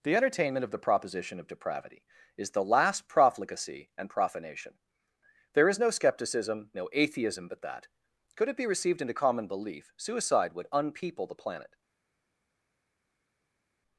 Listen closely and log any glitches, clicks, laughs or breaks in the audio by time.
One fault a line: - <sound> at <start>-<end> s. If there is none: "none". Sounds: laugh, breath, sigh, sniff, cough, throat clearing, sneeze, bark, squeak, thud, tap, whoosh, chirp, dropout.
none